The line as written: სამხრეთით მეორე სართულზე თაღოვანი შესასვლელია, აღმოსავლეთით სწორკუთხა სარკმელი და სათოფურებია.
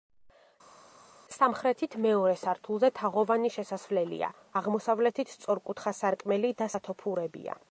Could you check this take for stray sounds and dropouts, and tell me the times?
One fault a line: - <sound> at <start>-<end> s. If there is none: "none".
none